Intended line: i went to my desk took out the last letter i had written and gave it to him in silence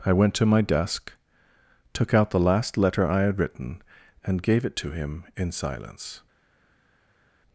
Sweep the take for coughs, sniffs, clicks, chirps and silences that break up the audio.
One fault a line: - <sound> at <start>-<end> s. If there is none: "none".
none